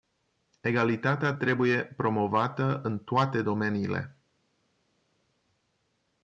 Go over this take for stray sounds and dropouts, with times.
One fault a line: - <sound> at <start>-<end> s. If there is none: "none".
none